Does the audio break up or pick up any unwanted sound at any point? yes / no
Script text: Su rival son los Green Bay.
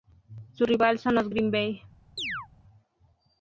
yes